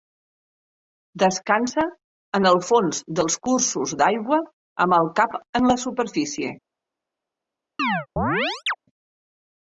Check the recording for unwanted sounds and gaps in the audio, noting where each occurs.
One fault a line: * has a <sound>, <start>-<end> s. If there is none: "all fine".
* has a chirp, 7.8-8.8 s